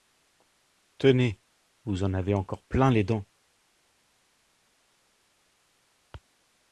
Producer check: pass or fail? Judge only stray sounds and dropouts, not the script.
pass